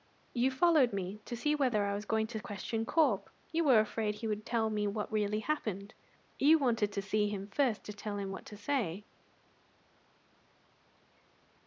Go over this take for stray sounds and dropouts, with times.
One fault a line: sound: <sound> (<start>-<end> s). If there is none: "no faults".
no faults